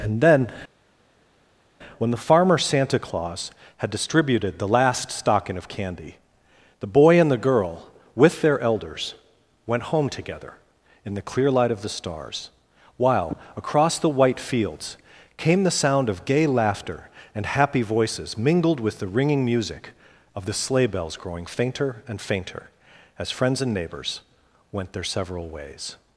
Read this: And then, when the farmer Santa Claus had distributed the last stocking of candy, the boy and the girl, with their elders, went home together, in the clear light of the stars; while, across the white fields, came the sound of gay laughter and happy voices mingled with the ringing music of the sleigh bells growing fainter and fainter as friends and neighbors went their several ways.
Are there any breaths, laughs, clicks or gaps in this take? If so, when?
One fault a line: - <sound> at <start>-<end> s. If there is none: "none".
none